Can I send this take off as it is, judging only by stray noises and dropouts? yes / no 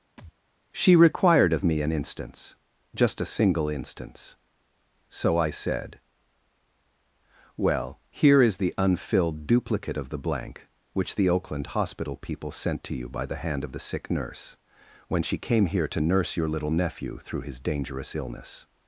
no